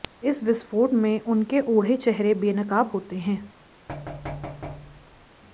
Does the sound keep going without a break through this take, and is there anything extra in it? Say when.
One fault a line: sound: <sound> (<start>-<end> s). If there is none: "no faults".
sound: thud (3.9-5.3 s)